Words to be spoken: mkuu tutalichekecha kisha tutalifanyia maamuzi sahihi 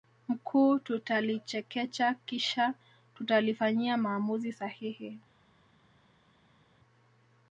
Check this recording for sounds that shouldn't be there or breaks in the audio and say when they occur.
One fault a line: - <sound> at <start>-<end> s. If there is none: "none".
none